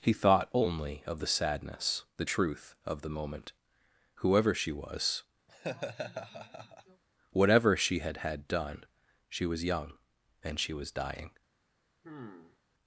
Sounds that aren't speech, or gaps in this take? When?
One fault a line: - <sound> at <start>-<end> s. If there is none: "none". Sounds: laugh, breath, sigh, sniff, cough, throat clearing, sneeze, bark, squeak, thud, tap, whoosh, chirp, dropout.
- laugh at 5.5-7.0 s
- sigh at 12.0-12.6 s